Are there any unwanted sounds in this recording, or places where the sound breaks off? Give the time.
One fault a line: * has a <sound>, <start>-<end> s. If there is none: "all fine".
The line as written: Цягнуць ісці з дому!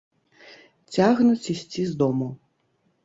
all fine